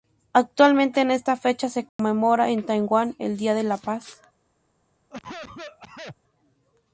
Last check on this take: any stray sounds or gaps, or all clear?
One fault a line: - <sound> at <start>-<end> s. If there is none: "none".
- dropout at 1.9-2.0 s
- cough at 5.1-6.2 s